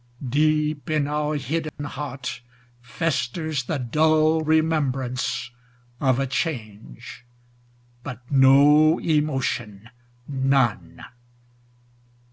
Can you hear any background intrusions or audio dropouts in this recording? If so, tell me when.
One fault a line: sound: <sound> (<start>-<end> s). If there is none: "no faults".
sound: dropout (1.7-1.8 s)